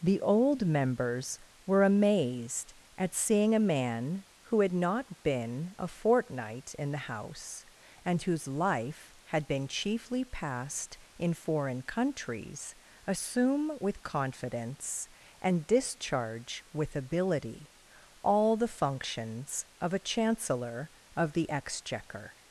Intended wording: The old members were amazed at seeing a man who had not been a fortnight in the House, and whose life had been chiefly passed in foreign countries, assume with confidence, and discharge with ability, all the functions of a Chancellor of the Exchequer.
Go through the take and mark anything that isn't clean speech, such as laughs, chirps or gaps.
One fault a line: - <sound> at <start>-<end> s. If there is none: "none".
none